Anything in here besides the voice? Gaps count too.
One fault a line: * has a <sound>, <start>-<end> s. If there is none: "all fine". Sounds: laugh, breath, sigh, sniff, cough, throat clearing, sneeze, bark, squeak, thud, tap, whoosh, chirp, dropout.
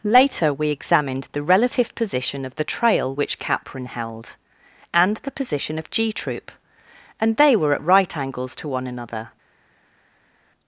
all fine